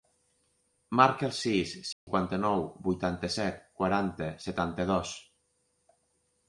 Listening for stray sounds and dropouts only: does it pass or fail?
fail